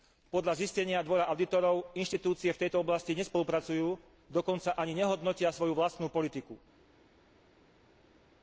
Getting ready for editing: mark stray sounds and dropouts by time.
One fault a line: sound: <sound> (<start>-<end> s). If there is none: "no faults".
no faults